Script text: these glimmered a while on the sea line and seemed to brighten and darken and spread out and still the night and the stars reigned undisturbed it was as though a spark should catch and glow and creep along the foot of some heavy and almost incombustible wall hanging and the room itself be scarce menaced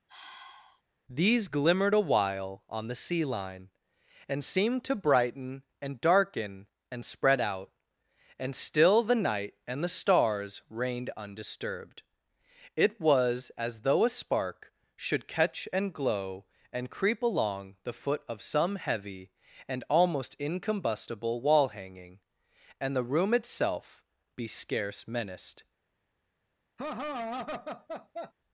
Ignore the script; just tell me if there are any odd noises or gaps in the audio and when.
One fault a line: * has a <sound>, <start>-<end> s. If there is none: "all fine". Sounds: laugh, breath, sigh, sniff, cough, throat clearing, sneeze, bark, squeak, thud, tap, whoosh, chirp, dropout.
* has a sigh, 0.1-0.8 s
* has a laugh, 26.8-28.3 s